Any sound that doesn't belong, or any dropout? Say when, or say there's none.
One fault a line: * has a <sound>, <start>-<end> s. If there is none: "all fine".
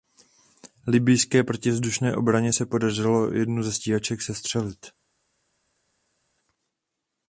all fine